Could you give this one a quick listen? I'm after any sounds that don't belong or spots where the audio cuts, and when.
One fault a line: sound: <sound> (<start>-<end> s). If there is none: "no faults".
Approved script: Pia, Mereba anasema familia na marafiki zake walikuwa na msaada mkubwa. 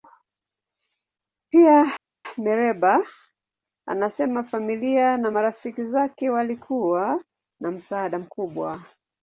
no faults